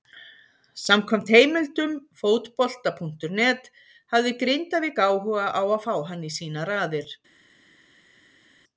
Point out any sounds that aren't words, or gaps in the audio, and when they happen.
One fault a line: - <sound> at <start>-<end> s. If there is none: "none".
none